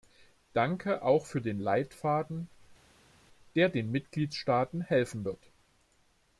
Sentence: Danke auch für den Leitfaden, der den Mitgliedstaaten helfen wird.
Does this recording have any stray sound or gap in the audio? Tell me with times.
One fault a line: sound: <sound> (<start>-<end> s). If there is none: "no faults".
no faults